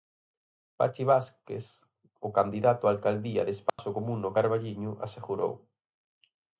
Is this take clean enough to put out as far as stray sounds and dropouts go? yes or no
no